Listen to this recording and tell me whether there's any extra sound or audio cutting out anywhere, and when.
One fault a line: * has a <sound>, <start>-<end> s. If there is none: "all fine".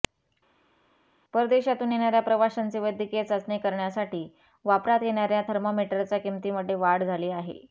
all fine